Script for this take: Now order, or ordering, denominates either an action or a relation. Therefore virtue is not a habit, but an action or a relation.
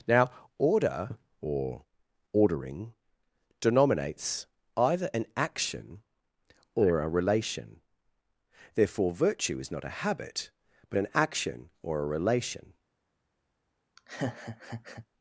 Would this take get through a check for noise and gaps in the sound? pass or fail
fail